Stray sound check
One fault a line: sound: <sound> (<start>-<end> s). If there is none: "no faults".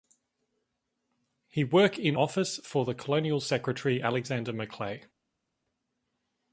no faults